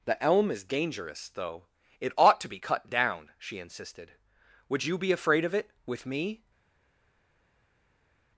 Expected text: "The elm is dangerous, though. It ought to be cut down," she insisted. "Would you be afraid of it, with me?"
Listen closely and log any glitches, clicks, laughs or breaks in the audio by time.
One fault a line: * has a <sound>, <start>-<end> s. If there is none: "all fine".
all fine